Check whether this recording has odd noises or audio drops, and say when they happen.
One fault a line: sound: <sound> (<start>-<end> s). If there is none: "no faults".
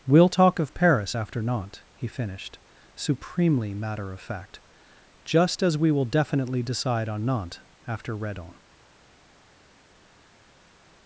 no faults